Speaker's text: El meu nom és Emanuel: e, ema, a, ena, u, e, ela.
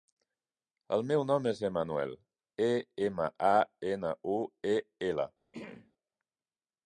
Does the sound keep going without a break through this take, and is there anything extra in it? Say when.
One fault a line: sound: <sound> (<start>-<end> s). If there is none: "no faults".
sound: throat clearing (5.5-5.9 s)